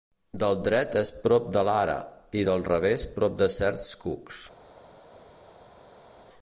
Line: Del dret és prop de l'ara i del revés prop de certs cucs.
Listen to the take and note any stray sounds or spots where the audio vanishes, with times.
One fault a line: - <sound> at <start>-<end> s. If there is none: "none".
none